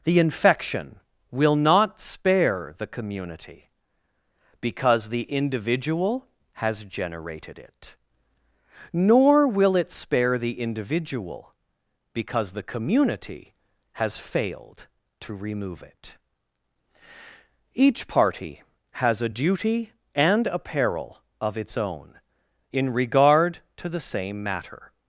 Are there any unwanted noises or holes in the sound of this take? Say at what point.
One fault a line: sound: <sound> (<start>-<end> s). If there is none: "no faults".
no faults